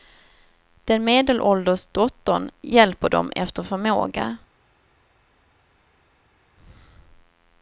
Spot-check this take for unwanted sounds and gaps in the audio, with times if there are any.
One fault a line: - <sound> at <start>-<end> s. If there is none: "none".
none